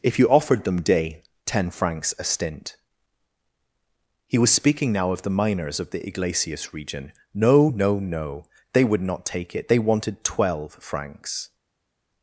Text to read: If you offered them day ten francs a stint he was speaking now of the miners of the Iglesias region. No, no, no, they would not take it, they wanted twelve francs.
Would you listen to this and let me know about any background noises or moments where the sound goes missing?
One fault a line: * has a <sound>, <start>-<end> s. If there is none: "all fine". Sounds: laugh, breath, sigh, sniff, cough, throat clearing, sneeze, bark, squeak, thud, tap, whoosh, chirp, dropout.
all fine